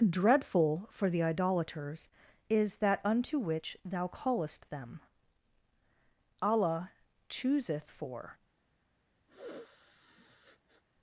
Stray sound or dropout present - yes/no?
yes